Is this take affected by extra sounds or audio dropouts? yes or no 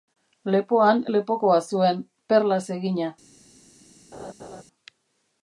yes